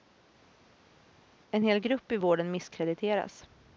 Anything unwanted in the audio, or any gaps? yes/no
no